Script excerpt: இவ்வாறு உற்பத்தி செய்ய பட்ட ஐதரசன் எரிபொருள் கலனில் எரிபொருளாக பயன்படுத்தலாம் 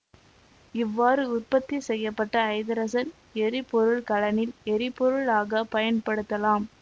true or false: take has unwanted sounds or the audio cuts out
false